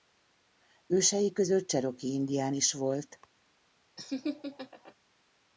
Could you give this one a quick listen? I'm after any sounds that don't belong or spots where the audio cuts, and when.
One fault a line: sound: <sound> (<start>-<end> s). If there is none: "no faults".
sound: laugh (4.0-5.0 s)